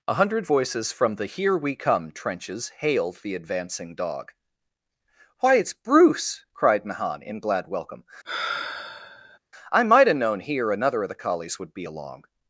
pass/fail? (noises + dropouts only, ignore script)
fail